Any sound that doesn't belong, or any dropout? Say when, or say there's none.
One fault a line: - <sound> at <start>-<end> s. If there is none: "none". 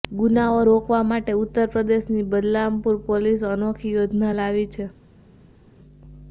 none